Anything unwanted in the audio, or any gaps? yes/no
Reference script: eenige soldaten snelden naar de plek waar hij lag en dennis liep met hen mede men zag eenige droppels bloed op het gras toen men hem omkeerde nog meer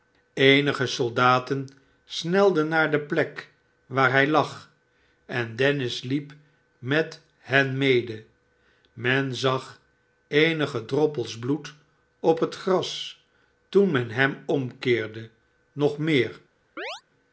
yes